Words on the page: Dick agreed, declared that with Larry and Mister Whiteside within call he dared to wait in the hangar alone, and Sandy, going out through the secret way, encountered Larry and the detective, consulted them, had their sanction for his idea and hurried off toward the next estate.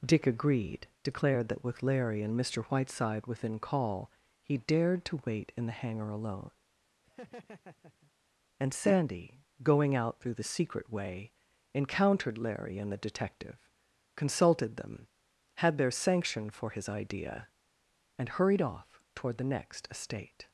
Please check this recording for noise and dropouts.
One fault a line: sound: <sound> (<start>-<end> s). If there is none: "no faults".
sound: laugh (7.0-8.1 s)